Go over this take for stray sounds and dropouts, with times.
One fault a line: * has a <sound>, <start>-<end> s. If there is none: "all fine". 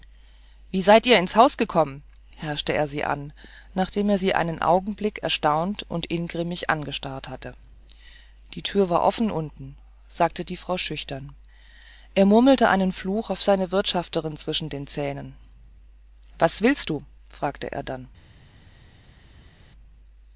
all fine